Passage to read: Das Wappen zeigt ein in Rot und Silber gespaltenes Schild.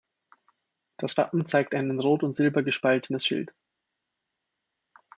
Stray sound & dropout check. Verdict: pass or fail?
pass